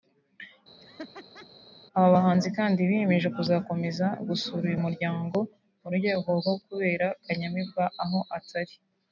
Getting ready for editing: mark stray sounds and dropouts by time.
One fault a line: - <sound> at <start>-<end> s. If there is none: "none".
- laugh at 0.8-1.5 s